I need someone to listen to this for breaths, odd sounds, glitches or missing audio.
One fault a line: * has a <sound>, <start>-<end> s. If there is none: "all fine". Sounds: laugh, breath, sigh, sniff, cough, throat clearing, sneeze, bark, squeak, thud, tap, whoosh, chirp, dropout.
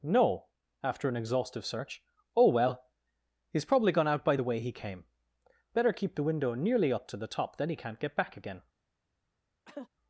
* has a cough, 9.7-9.9 s